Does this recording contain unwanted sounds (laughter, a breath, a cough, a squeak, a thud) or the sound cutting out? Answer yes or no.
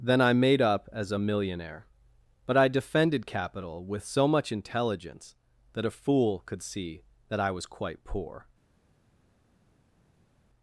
no